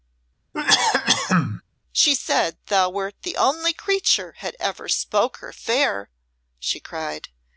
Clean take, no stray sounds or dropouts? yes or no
no